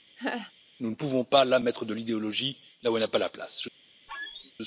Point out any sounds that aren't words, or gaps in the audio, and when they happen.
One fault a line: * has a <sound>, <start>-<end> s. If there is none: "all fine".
* has a laugh, 0.2-0.5 s
* has a squeak, 4.1-4.5 s